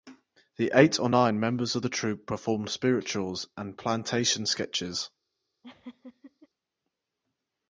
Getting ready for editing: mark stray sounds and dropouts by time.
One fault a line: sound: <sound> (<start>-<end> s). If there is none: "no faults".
sound: laugh (5.6-6.5 s)